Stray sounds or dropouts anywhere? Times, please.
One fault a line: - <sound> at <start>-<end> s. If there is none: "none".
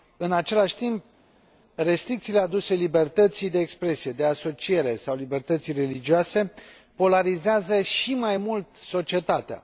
none